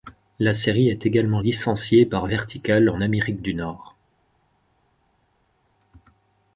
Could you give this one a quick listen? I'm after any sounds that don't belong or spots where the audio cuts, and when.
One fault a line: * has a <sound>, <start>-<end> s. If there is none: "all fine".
all fine